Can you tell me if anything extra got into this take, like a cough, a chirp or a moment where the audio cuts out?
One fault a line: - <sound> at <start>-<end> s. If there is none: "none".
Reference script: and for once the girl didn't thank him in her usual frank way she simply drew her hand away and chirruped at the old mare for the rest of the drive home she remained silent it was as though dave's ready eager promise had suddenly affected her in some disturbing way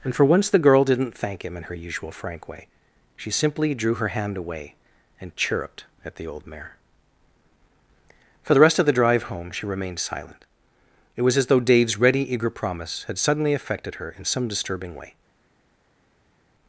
none